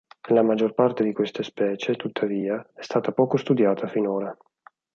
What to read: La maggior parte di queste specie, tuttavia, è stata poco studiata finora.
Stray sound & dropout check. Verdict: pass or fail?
pass